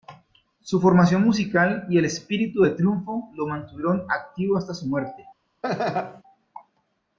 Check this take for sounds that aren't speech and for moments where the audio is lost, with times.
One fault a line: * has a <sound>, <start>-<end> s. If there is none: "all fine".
* has a laugh, 5.6-6.2 s